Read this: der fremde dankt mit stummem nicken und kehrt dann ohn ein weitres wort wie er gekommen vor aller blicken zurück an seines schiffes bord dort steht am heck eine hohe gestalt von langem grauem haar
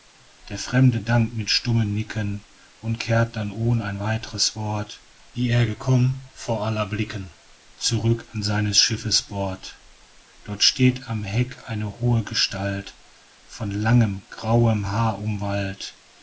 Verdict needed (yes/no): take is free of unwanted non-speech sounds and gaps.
yes